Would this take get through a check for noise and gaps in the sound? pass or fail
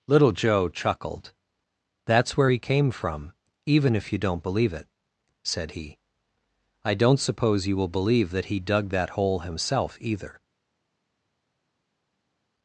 pass